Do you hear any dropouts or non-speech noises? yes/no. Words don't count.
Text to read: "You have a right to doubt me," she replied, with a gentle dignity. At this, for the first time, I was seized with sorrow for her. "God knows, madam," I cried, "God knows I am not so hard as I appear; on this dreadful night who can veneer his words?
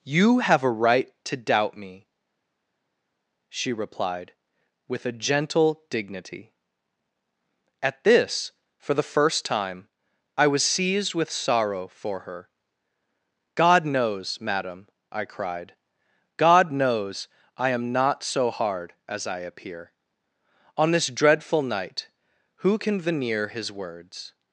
no